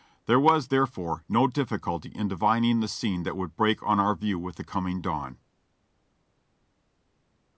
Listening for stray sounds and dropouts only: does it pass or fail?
pass